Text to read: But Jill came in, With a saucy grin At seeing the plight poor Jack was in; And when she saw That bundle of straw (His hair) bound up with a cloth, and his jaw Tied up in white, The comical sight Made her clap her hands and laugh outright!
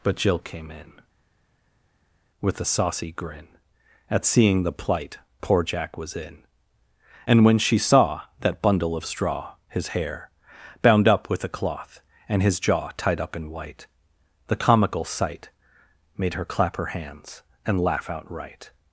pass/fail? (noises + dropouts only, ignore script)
pass